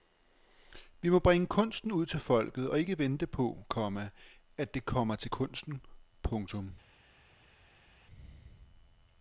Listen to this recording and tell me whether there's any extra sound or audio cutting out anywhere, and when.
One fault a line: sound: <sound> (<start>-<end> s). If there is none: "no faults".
no faults